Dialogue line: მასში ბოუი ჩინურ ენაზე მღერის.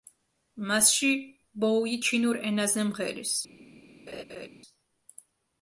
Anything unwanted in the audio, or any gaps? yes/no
yes